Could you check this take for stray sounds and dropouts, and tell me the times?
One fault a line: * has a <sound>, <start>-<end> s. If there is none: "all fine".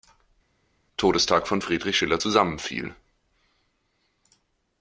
all fine